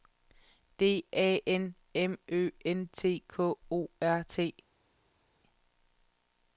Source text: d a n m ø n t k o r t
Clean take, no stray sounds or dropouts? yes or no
yes